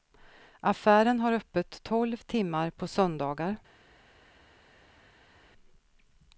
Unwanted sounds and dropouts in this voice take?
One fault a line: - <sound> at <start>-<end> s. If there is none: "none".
none